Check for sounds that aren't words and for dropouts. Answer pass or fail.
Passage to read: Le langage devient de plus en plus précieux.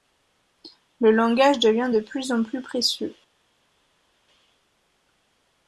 pass